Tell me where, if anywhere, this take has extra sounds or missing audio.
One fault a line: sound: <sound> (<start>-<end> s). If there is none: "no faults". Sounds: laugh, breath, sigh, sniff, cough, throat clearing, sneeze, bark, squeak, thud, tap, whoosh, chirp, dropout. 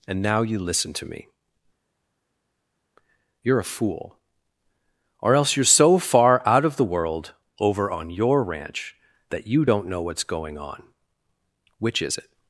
no faults